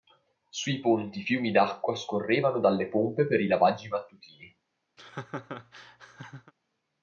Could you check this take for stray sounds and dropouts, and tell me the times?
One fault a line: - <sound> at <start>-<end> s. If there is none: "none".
- laugh at 5.0-6.5 s